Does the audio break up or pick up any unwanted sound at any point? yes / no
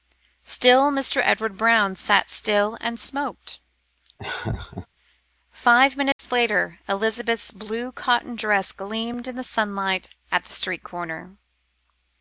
yes